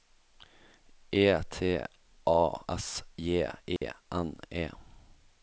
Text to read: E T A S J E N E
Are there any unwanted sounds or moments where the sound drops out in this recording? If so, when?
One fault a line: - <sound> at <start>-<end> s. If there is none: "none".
- dropout at 3.8-3.8 s